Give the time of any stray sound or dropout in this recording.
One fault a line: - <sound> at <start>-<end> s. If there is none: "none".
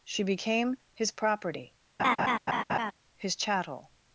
- laugh at 2.0-2.9 s